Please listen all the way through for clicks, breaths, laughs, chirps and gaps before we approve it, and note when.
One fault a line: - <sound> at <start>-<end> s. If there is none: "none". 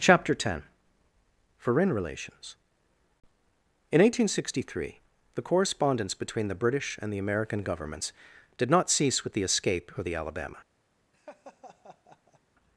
- laugh at 11.1-12.4 s